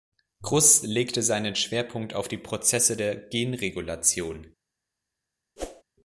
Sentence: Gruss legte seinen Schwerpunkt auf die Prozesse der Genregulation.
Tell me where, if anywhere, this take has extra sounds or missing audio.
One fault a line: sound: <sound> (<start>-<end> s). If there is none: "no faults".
sound: whoosh (5.6-5.8 s)